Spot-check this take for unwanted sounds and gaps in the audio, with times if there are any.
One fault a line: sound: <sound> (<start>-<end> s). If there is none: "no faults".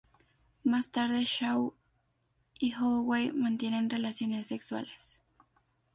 no faults